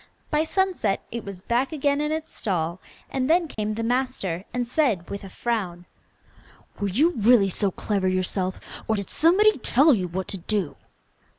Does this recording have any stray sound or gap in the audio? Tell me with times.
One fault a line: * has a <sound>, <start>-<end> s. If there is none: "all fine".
* has a dropout, 3.5-3.6 s